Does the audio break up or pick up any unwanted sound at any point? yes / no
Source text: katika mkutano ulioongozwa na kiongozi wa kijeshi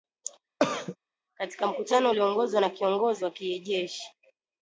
yes